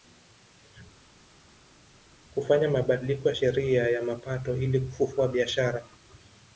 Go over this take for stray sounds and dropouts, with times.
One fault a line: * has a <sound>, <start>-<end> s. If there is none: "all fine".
all fine